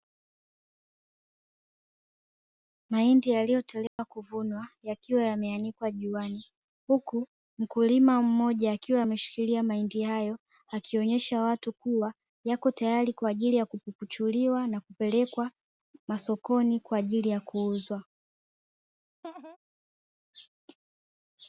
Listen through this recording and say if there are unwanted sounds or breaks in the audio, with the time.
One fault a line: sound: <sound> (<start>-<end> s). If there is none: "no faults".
sound: dropout (3.9-4.0 s)
sound: laugh (19.2-19.6 s)